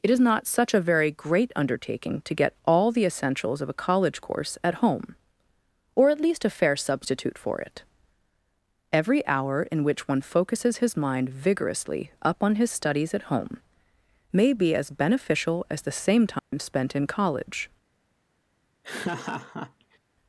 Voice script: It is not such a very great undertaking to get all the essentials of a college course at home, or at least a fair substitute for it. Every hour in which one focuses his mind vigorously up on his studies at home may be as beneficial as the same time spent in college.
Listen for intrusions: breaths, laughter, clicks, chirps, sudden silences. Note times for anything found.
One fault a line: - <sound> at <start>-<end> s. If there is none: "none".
- dropout at 16.4-16.5 s
- laugh at 18.8-20.0 s